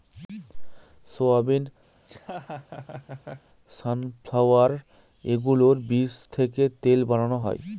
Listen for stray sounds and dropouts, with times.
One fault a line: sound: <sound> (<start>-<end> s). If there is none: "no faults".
sound: laugh (2.0-3.5 s)